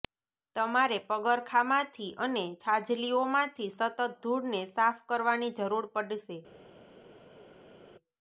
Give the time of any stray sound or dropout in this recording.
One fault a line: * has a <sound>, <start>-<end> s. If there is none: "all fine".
all fine